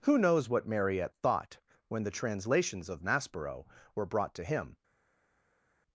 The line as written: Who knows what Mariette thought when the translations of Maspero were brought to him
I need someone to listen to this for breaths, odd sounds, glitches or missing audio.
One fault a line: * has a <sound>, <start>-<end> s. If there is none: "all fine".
all fine